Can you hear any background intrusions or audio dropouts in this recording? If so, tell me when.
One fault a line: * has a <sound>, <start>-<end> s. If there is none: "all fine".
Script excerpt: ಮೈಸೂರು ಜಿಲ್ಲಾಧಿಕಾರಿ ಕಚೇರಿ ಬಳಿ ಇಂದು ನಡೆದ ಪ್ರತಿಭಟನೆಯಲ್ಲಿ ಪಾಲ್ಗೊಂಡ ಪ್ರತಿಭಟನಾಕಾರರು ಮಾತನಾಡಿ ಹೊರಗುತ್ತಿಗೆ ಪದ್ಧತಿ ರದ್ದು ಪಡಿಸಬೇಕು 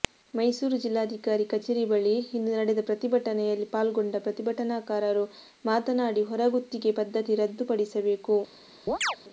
* has a chirp, 8.9-9.2 s